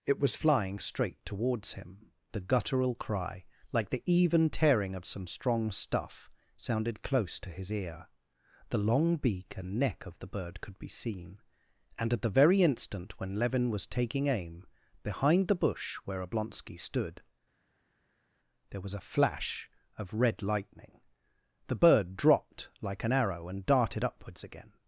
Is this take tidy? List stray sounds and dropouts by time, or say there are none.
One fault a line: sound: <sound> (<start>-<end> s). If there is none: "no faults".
no faults